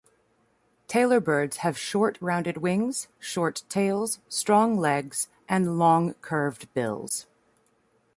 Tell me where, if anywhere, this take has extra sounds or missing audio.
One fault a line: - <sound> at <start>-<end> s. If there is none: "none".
none